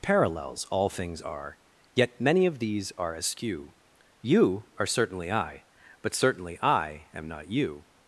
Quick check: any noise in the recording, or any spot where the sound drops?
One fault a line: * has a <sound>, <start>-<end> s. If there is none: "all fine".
all fine